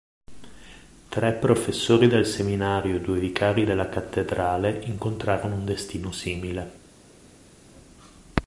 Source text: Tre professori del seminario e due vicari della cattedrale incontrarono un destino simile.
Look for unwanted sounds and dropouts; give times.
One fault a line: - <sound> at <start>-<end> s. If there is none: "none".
none